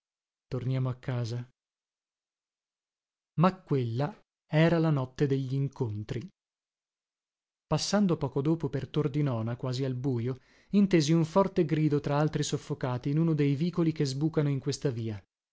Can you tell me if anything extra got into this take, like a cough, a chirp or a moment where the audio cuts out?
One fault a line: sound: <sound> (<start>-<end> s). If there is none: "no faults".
no faults